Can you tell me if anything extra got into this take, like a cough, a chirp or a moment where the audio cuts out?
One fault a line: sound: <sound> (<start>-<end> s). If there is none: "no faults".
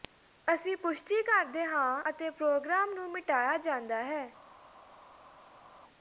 no faults